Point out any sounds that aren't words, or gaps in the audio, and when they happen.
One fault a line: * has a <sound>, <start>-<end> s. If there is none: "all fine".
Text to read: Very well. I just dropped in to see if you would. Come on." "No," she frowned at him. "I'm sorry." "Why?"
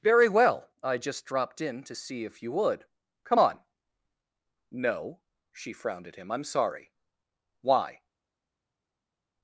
all fine